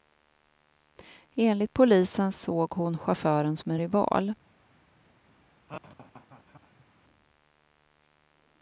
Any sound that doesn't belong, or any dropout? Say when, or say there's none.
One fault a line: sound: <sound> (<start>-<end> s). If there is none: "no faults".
sound: laugh (5.7-6.9 s)